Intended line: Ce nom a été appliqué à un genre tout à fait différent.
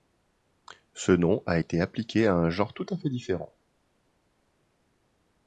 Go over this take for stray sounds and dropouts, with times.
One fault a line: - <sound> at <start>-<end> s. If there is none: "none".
none